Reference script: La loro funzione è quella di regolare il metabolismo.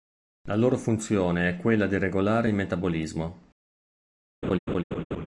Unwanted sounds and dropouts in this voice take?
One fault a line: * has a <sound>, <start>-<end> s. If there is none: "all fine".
* has a laugh, 4.4-5.3 s